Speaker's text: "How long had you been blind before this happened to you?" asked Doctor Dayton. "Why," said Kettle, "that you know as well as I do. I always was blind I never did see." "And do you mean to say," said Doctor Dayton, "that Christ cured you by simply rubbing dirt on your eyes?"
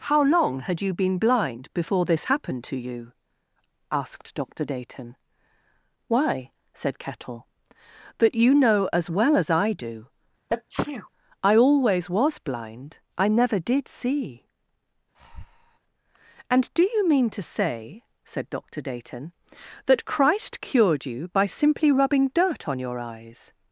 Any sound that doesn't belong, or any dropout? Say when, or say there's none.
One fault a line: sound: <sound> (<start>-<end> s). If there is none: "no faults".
sound: sneeze (10.5-11.1 s)
sound: breath (15.1-15.8 s)